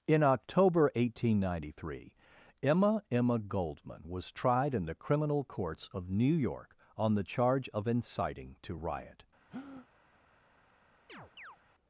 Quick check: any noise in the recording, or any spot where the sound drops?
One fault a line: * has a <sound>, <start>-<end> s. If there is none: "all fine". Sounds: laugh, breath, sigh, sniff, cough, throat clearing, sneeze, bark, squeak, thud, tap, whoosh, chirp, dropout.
* has a breath, 9.5-9.9 s
* has a chirp, 11.1-11.6 s